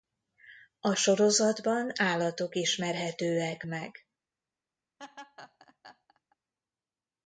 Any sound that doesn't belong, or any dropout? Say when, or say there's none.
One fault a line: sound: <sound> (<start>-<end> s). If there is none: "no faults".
sound: laugh (5.0-6.4 s)